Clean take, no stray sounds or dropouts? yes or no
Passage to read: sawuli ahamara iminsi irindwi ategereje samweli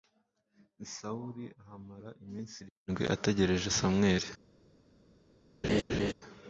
no